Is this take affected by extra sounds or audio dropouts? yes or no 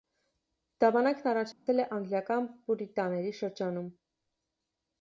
yes